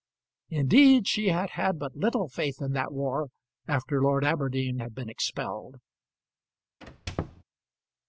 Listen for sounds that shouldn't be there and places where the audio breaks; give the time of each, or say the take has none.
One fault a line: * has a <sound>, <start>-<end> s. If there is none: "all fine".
* has a squeak, 6.8-7.4 s